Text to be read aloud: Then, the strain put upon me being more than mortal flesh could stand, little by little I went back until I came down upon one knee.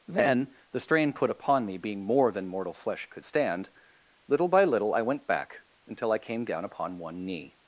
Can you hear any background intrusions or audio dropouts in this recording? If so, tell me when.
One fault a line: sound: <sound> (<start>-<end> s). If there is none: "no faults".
no faults